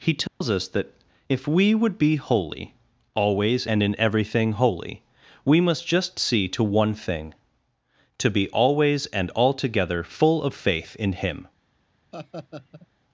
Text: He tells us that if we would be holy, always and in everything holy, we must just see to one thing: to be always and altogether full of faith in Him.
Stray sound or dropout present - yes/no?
yes